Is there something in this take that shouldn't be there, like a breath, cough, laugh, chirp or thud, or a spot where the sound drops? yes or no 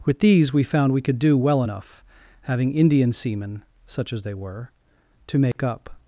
yes